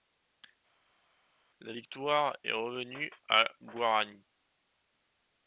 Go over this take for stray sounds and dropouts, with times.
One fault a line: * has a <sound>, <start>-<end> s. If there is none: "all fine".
all fine